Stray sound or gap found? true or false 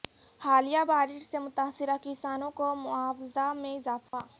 true